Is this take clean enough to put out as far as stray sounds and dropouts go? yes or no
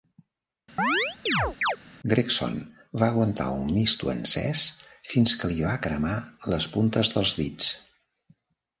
no